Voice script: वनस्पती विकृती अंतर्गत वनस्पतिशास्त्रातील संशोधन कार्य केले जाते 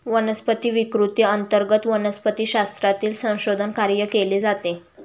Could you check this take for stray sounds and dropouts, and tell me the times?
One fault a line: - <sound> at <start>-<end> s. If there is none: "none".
none